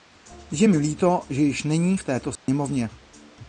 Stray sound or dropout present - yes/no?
yes